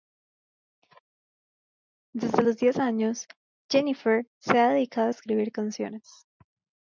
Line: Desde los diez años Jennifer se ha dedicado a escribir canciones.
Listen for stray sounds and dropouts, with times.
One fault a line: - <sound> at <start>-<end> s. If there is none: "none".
none